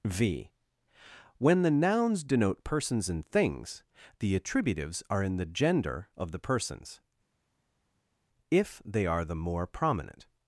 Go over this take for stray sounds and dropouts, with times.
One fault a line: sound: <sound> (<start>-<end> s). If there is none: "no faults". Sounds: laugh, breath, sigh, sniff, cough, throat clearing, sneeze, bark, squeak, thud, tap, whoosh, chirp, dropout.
no faults